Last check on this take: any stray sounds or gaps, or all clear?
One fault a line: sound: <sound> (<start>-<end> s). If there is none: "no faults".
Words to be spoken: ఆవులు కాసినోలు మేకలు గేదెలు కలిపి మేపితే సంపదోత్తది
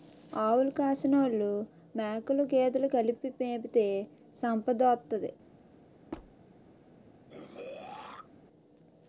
sound: squeak (6.1-6.3 s)
sound: throat clearing (7.3-8.3 s)